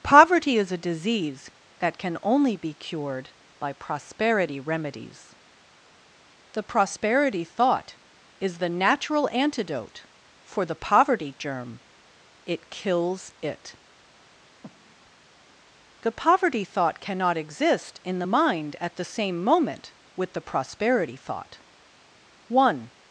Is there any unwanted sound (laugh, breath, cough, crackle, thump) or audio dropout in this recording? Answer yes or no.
yes